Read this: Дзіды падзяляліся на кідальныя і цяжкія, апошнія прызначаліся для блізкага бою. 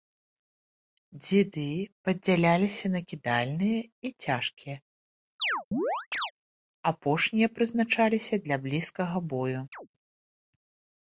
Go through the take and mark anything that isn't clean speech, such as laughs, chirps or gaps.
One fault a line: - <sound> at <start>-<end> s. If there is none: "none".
- chirp at 5.4-6.3 s
- chirp at 9.7-9.9 s